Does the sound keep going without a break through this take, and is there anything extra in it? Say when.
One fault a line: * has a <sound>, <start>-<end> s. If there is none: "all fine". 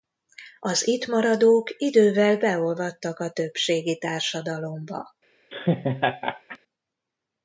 * has a laugh, 5.5-6.6 s